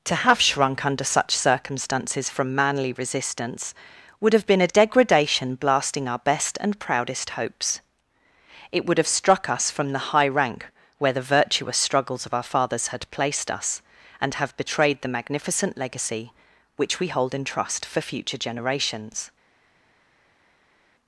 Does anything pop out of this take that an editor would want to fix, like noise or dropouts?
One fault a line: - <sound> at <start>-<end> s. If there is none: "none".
none